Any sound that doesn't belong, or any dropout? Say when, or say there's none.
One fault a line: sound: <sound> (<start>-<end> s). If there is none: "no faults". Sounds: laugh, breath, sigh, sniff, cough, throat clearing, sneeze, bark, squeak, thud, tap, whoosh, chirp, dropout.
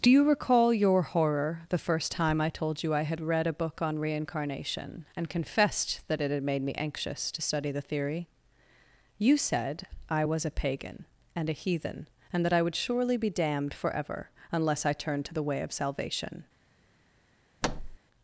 sound: thud (17.6-18.0 s)